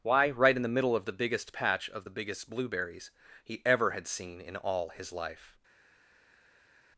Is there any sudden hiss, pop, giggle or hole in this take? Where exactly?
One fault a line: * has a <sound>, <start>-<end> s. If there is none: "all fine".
all fine